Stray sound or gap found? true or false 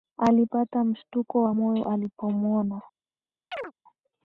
true